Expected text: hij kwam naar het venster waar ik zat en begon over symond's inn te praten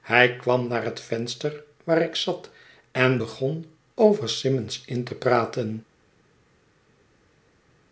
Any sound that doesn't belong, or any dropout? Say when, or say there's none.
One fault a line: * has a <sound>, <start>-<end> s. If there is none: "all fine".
all fine